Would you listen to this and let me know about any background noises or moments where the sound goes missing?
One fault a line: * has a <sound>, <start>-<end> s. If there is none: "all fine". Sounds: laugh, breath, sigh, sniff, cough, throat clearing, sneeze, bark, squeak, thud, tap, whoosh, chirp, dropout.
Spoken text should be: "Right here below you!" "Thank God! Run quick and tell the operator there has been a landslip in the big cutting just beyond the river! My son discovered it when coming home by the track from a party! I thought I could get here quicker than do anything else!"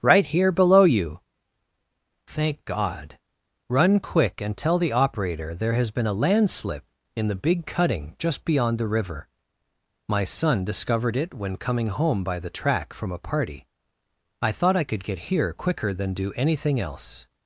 all fine